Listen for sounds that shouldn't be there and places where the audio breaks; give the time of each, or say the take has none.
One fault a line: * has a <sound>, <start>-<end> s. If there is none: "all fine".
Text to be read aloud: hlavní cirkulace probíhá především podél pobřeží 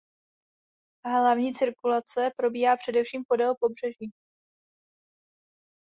all fine